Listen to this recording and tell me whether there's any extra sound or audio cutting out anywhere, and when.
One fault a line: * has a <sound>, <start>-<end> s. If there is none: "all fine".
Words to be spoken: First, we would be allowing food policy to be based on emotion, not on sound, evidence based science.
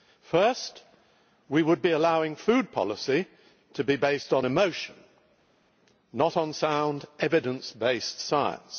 all fine